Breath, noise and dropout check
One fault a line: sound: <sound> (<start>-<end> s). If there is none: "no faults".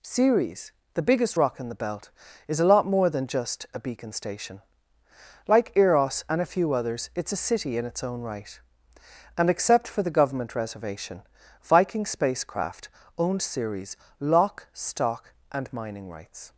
no faults